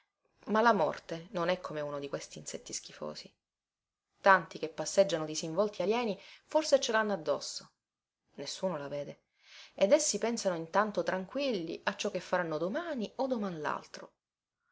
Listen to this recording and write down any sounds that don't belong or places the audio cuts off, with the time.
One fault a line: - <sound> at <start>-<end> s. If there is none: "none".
none